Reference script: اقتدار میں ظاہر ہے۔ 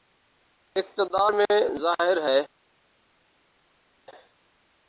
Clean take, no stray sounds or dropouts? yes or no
yes